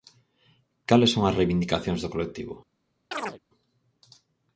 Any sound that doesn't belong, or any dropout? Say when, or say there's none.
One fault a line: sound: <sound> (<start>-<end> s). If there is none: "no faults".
sound: chirp (3.1-3.4 s)